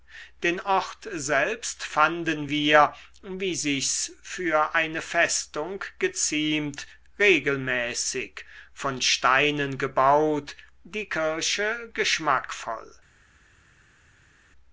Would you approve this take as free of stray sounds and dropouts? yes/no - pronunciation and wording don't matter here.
yes